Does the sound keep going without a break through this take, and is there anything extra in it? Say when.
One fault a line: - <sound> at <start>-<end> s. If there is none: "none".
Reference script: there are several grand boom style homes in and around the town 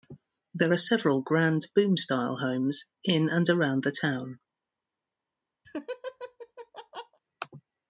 - laugh at 5.6-7.2 s